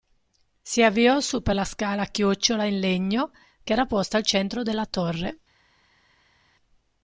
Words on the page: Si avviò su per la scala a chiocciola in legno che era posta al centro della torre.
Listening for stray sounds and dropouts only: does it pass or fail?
pass